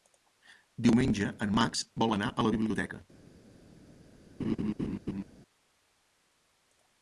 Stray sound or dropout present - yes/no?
yes